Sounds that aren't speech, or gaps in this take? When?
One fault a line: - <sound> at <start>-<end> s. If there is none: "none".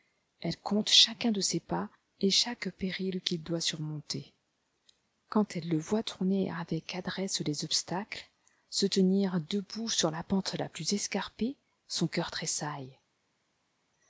none